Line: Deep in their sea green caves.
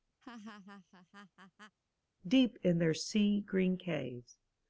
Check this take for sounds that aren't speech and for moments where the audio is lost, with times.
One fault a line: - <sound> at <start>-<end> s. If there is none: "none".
- laugh at 0.2-1.8 s